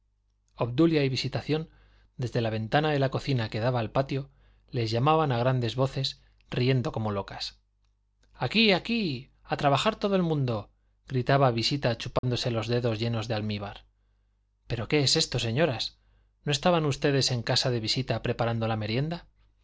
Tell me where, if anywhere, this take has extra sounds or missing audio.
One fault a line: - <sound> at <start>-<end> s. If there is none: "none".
- dropout at 12.2-12.2 s